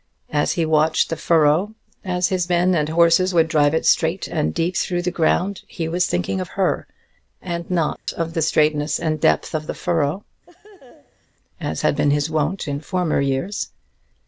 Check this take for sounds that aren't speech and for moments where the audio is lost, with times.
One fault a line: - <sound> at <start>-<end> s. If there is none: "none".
- dropout at 8.0-8.1 s
- laugh at 10.5-11.3 s